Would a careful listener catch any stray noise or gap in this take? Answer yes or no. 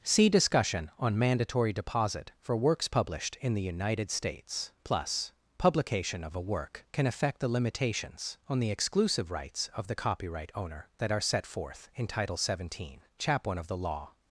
no